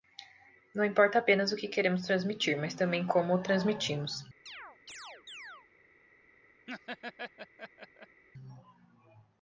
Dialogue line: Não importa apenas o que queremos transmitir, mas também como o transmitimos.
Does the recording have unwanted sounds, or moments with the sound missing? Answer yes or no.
yes